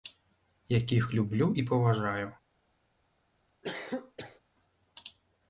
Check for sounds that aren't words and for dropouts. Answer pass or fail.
fail